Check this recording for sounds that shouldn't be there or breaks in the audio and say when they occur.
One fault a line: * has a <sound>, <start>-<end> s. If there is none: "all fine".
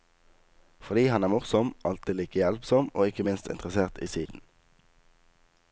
* has a dropout, 4.3-4.3 s